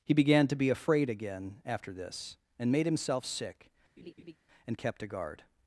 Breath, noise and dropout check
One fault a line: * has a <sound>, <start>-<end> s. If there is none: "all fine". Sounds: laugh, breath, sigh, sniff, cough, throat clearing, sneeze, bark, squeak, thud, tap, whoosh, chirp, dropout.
* has a laugh, 4.0-4.4 s